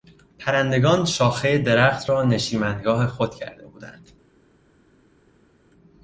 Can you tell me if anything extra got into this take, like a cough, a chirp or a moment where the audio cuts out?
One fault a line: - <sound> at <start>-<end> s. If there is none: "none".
none